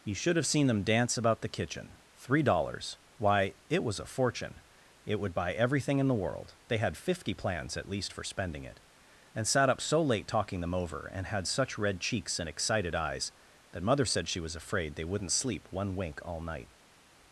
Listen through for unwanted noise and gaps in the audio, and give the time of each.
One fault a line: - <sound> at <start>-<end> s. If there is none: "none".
none